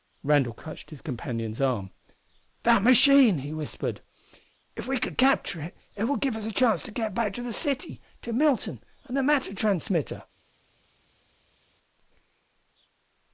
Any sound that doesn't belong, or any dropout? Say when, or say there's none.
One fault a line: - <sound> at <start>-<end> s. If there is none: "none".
none